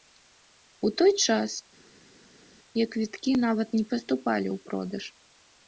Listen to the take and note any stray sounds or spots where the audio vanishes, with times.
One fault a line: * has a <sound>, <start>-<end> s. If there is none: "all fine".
all fine